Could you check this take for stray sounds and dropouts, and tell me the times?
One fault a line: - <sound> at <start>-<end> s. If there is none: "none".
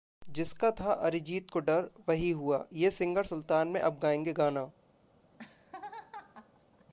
- laugh at 5.3-6.9 s